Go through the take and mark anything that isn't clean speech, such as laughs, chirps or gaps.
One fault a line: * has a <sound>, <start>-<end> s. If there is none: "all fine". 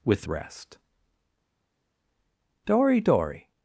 all fine